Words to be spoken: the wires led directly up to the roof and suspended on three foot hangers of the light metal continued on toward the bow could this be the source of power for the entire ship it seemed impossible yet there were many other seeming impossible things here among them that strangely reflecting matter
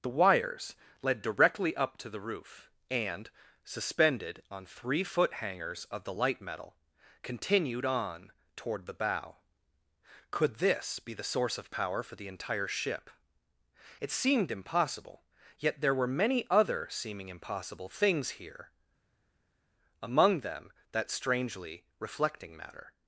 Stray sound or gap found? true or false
false